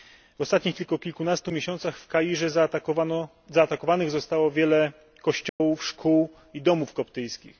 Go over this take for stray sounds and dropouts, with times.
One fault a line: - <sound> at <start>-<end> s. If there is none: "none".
- dropout at 5.5-5.6 s